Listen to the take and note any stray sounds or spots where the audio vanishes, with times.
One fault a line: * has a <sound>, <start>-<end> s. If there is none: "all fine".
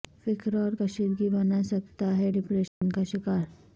* has a dropout, 2.7-2.8 s